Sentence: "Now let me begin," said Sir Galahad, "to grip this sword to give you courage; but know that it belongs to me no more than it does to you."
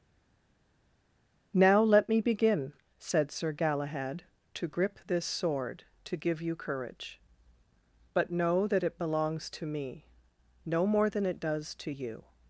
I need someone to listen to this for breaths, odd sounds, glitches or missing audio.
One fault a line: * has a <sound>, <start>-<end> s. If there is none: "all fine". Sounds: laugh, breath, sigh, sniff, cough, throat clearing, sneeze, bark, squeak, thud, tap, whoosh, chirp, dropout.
all fine